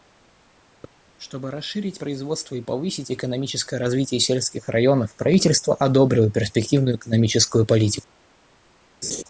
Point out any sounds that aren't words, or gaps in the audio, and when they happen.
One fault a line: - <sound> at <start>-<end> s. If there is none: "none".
- laugh at 9.0-9.2 s